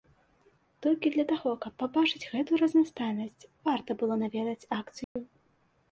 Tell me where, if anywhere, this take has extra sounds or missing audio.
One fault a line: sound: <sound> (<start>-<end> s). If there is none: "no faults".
sound: dropout (5.0-5.2 s)